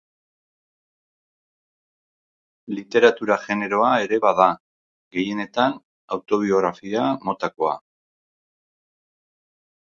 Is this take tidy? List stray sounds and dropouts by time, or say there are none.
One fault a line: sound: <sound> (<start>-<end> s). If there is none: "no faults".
no faults